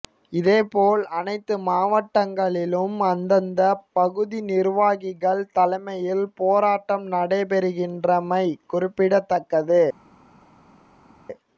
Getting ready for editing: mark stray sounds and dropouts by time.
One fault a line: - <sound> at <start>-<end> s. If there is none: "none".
none